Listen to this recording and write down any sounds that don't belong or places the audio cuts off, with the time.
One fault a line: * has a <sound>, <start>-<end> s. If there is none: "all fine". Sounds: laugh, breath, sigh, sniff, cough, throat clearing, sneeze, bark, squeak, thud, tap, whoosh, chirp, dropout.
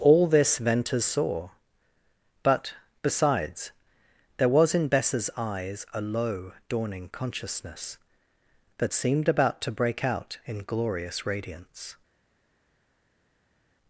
all fine